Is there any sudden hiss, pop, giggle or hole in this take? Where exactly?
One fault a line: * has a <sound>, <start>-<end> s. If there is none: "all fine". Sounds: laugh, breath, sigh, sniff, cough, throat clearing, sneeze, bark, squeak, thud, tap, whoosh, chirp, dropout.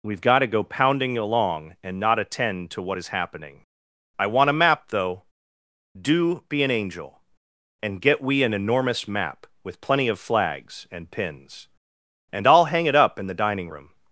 all fine